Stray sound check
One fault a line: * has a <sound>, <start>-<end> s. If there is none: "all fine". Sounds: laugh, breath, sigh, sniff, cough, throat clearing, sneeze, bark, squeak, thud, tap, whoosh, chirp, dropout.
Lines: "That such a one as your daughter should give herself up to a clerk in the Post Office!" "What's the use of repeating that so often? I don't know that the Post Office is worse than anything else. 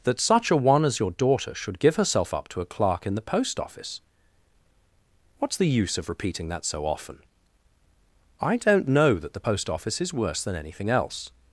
all fine